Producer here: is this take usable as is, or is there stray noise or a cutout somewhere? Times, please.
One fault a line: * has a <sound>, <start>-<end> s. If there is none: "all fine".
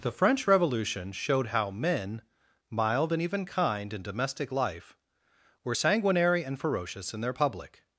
all fine